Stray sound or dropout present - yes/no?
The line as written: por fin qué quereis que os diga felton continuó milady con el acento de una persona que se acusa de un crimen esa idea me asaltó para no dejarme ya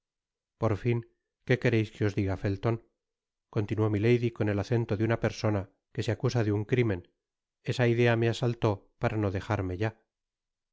no